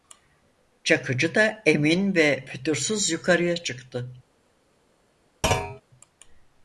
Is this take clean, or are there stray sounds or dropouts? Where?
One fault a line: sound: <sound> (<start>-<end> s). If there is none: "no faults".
sound: thud (5.4-5.8 s)